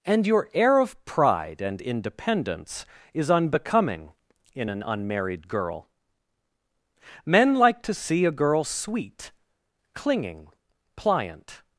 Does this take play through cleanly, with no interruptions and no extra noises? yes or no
yes